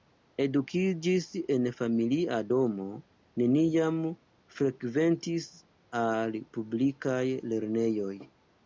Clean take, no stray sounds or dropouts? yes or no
yes